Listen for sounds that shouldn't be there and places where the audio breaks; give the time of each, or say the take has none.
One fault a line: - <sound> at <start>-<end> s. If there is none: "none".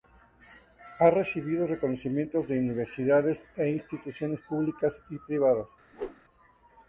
- whoosh at 5.9-6.2 s